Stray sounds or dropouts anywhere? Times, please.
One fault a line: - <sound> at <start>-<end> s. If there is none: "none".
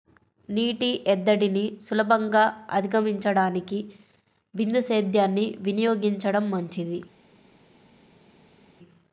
none